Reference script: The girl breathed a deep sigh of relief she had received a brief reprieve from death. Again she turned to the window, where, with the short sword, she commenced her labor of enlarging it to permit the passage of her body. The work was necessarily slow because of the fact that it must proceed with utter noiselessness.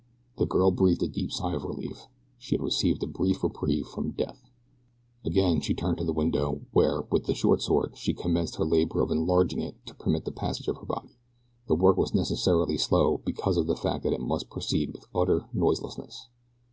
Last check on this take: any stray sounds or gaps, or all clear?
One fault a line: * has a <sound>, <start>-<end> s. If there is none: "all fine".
all fine